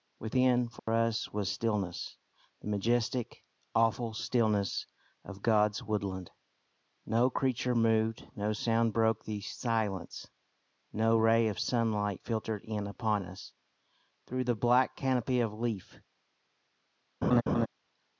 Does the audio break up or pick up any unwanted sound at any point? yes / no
yes